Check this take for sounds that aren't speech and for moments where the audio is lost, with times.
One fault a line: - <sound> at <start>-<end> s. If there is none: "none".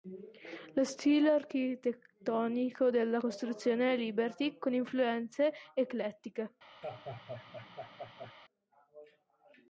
- laugh at 6.8-8.3 s